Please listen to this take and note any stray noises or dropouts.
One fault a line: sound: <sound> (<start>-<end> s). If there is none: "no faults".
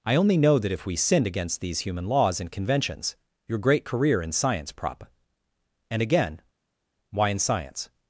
no faults